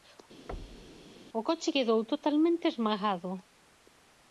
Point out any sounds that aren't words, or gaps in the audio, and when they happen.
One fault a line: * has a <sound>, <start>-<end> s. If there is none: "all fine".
* has a thud, 0.5-1.1 s